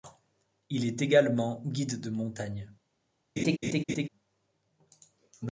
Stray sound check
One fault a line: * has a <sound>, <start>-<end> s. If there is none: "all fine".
* has a laugh, 3.4-4.1 s